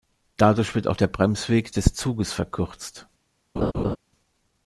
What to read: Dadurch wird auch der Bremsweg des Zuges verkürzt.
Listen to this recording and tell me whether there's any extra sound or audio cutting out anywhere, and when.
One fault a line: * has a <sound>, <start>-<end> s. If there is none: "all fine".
* has a laugh, 3.6-4.0 s